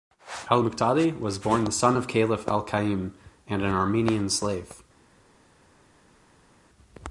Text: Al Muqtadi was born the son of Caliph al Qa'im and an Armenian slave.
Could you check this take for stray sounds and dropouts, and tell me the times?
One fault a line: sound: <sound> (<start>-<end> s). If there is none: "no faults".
no faults